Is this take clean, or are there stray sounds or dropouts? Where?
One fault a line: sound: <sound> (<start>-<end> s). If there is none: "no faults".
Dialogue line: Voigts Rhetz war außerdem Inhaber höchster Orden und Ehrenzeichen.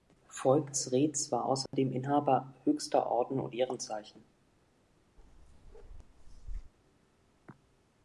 sound: dropout (1.7-1.7 s)
sound: bark (5.2-6.7 s)